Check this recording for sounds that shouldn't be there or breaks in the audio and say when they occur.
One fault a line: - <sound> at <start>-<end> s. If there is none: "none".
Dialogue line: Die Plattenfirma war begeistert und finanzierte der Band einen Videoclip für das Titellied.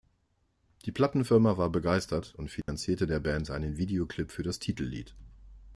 - dropout at 2.6-2.7 s